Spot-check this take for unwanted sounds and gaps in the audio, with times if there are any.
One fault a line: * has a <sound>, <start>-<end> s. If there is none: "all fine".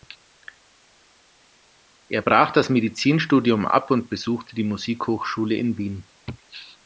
all fine